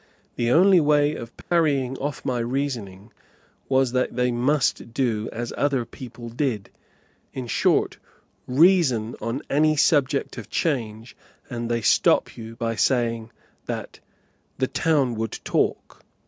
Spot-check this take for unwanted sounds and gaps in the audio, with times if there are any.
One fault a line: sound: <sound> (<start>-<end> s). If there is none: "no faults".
sound: dropout (1.4-1.5 s)